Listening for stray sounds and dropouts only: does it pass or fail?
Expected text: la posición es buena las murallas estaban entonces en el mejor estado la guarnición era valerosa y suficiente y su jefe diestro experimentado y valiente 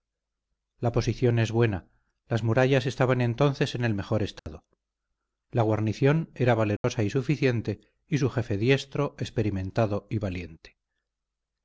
fail